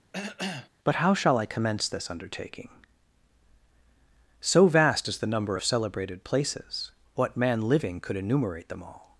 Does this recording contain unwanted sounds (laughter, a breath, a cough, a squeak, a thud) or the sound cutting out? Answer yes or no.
yes